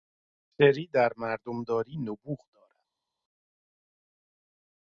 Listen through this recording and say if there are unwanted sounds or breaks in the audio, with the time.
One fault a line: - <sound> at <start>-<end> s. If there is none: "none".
none